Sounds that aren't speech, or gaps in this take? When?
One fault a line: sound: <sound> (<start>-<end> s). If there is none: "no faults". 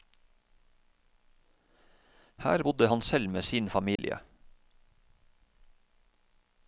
sound: dropout (4.0-4.0 s)